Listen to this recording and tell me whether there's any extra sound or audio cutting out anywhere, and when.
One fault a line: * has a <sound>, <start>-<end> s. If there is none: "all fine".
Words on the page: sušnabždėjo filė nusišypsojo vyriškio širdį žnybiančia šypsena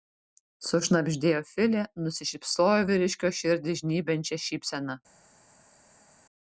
all fine